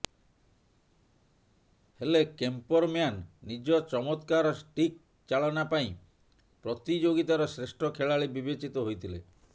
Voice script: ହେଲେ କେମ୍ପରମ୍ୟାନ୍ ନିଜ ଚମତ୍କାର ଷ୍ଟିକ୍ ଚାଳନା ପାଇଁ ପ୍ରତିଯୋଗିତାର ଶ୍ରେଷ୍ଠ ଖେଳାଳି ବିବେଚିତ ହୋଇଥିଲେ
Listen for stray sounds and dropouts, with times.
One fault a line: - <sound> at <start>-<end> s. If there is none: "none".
none